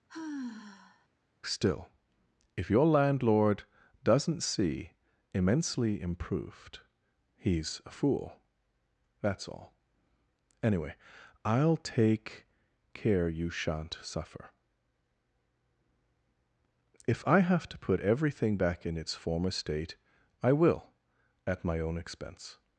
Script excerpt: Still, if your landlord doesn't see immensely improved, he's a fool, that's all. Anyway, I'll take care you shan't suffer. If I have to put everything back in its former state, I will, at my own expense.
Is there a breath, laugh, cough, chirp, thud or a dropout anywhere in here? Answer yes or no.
yes